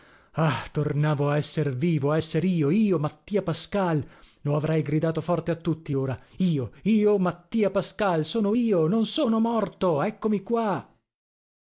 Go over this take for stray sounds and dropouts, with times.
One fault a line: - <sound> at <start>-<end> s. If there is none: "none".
none